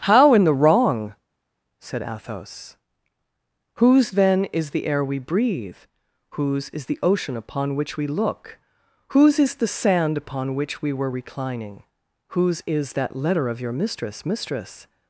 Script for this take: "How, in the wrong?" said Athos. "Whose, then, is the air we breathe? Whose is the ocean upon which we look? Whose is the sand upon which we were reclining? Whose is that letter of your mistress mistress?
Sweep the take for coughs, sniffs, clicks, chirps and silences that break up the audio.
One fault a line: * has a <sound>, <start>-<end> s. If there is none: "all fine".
all fine